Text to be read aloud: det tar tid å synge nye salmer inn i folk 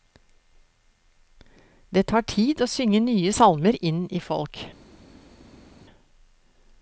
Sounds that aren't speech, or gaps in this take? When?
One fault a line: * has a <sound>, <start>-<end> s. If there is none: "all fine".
all fine